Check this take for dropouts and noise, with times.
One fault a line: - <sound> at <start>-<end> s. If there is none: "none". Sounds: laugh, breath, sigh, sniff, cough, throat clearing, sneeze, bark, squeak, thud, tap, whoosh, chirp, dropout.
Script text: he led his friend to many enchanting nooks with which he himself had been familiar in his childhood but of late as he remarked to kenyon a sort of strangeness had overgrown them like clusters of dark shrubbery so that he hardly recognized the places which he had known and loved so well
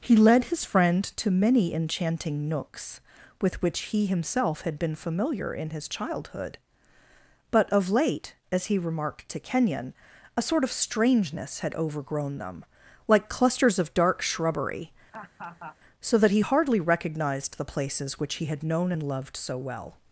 - laugh at 15.1-15.8 s